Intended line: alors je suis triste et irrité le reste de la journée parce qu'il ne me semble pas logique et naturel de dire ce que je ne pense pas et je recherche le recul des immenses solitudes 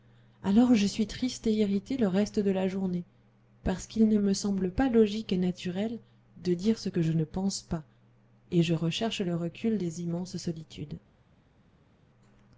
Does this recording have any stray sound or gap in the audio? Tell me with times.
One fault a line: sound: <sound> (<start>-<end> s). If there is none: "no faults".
no faults